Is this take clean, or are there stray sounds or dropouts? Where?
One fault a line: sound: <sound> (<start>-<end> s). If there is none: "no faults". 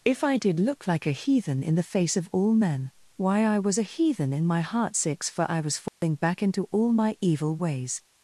sound: dropout (5.9-6.0 s)